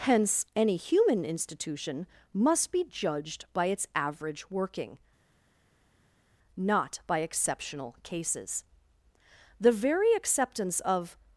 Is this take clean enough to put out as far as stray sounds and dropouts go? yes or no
yes